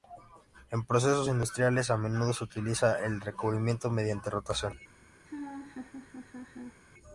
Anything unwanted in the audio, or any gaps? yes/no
yes